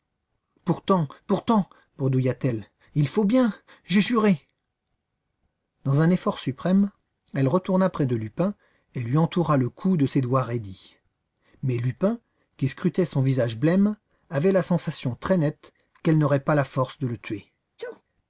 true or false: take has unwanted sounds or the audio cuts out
true